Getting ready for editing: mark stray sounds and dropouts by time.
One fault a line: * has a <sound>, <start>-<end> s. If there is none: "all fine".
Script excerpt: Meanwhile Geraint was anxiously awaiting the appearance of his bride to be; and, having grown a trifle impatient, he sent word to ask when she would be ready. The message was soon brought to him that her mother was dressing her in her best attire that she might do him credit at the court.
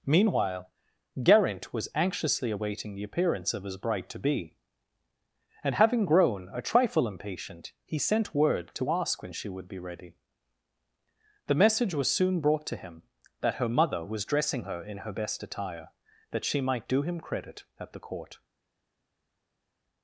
all fine